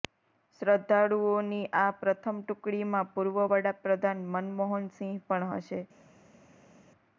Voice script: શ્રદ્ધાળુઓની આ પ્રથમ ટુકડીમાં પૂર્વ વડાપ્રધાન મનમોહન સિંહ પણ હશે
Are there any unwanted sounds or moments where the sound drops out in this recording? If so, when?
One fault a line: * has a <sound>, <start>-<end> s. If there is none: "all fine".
all fine